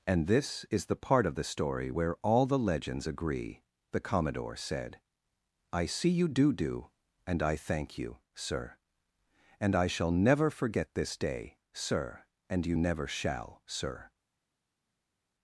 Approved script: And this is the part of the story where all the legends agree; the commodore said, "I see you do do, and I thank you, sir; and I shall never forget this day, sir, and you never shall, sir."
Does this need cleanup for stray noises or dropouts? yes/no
no